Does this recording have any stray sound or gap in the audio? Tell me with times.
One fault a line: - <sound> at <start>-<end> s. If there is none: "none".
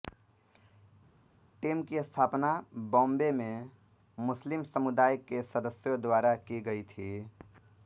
none